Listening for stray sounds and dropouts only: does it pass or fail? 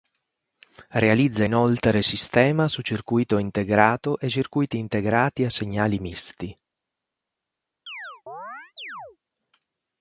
fail